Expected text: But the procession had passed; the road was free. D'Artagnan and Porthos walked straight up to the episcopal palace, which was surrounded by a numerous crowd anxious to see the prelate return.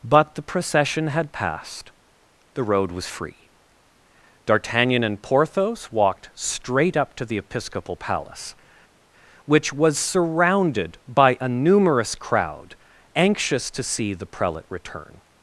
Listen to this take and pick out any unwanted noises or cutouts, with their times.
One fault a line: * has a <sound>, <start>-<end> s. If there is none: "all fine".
all fine